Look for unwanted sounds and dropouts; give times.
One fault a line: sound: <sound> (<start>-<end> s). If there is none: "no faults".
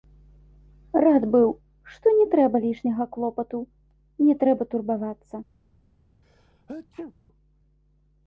sound: sneeze (6.2-7.1 s)